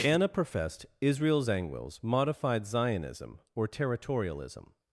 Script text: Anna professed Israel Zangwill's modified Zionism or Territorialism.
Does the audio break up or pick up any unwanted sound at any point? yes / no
no